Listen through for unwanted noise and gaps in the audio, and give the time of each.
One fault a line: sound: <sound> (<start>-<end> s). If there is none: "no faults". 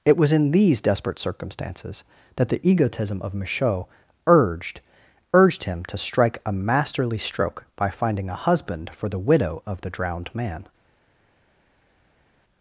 no faults